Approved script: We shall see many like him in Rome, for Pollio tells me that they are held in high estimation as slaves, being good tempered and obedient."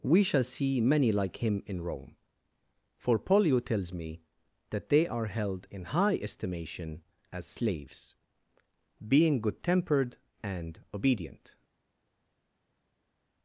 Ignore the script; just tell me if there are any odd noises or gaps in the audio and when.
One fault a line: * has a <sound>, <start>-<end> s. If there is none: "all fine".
all fine